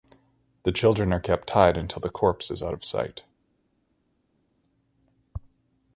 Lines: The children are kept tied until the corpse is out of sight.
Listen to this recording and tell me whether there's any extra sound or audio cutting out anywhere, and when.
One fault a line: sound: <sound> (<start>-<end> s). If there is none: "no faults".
no faults